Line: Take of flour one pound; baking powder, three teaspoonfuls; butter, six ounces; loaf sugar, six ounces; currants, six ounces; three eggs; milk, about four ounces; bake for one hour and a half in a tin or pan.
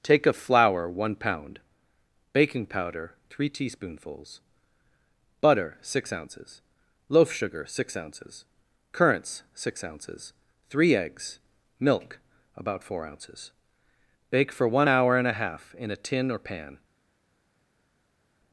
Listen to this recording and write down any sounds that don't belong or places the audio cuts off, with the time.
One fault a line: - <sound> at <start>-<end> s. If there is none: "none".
none